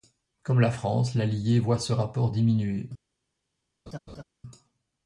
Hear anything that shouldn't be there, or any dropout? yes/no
yes